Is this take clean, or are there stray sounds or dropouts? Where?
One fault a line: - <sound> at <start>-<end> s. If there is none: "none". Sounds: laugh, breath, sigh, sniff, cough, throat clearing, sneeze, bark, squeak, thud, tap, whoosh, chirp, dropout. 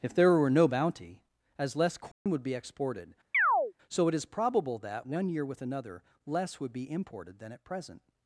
- dropout at 2.1-2.3 s
- chirp at 3.3-3.7 s